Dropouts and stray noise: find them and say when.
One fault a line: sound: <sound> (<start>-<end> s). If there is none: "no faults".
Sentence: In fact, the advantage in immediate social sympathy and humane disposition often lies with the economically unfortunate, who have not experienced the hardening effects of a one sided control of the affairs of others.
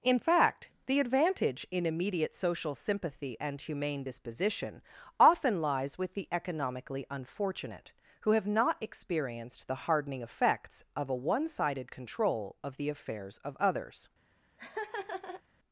sound: laugh (14.6-15.4 s)